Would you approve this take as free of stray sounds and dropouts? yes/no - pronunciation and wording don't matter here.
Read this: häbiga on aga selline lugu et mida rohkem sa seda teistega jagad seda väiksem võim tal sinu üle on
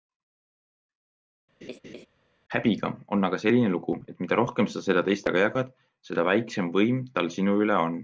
no